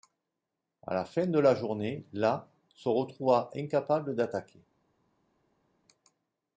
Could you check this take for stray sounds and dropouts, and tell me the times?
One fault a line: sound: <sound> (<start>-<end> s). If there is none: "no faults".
no faults